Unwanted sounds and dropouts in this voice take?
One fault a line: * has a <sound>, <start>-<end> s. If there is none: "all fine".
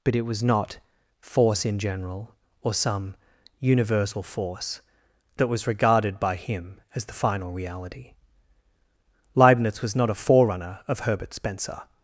all fine